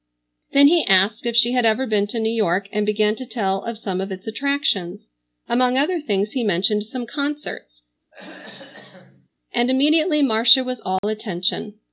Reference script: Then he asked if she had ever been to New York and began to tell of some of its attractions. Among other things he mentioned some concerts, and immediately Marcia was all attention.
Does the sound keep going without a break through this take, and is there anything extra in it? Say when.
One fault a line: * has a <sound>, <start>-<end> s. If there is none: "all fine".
* has a throat clearing, 8.1-9.3 s
* has a dropout, 11.0-11.0 s